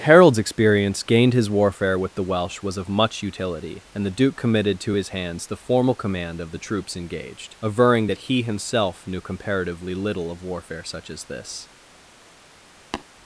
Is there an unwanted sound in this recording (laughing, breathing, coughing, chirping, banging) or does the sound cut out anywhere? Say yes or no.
yes